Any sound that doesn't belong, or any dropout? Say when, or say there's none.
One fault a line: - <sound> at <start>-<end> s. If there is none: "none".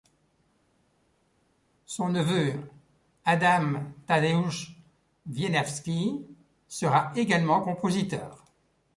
none